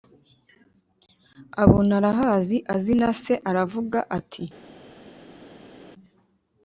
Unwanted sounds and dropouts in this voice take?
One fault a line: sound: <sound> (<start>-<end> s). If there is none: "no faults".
no faults